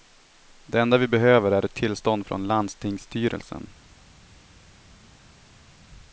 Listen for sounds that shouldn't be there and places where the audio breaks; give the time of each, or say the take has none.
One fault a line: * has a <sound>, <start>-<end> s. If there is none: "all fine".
all fine